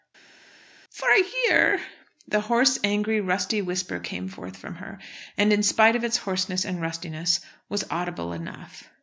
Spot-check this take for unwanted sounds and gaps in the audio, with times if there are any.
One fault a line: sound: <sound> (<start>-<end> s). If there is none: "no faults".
no faults